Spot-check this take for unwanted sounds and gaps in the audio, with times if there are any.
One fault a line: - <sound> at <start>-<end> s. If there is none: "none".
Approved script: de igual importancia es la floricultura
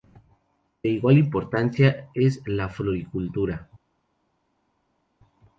none